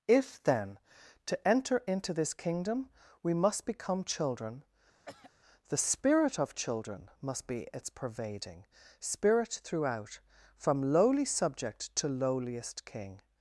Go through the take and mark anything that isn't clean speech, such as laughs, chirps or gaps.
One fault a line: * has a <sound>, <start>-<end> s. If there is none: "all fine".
* has a throat clearing, 5.0-5.3 s